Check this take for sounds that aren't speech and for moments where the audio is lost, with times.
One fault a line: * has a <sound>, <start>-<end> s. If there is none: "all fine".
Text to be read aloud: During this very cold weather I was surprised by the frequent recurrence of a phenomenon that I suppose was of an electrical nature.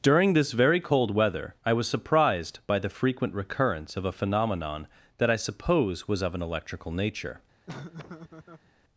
* has a laugh, 7.7-8.7 s